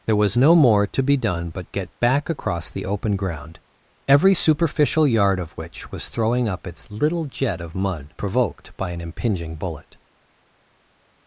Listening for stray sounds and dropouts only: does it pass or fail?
pass